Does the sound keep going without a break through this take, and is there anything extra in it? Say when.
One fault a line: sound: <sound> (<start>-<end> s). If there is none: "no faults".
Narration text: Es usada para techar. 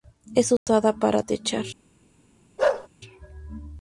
sound: dropout (0.6-0.7 s)
sound: bark (2.6-2.9 s)